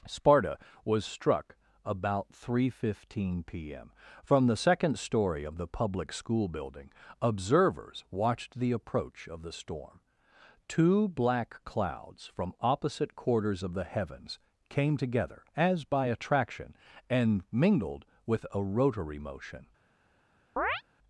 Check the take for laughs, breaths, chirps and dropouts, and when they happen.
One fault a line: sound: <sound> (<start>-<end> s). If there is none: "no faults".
sound: chirp (20.6-20.8 s)